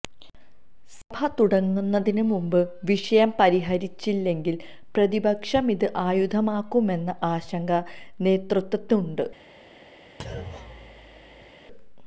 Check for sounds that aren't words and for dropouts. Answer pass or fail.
fail